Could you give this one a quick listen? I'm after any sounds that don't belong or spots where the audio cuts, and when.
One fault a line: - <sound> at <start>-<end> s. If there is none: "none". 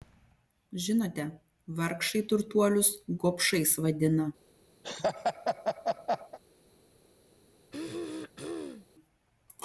- laugh at 4.8-6.4 s
- throat clearing at 7.7-8.9 s